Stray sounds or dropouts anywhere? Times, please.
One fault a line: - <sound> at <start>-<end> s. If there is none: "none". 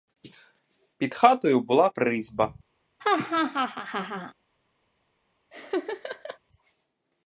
- laugh at 3.0-4.3 s
- laugh at 5.5-6.4 s